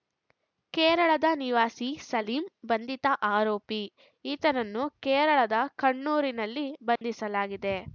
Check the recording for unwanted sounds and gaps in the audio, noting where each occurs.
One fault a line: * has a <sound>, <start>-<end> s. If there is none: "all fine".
* has a dropout, 7.0-7.0 s